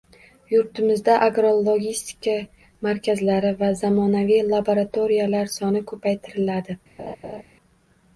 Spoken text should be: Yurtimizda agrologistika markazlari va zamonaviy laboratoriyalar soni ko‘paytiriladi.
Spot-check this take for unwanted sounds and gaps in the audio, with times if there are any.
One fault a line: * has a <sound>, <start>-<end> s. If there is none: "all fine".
* has a laugh, 7.0-7.4 s